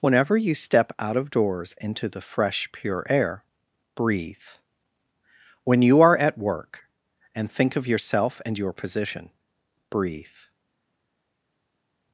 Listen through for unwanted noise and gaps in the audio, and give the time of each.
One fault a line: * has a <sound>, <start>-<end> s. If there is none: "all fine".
all fine